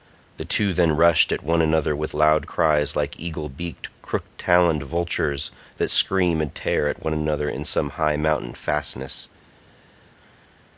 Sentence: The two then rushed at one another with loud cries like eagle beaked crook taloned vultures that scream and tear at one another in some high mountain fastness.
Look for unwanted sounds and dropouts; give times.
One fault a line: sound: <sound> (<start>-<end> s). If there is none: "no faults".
no faults